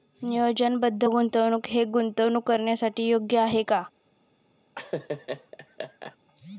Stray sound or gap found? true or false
true